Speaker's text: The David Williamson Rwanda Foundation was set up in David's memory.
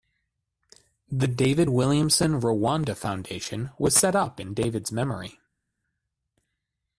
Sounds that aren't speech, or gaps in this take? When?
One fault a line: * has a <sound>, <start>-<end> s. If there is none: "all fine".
all fine